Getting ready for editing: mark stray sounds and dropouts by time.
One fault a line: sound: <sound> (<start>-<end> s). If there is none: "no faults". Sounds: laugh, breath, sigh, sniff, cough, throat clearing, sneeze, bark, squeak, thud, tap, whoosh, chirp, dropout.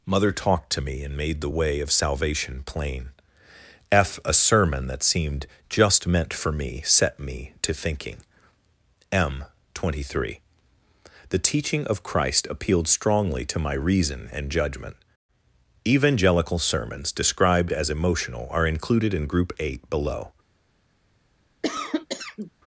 sound: cough (21.6-22.5 s)